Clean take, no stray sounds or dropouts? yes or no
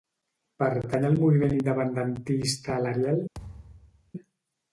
no